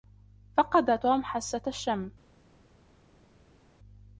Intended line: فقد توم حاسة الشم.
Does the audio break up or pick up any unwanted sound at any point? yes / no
no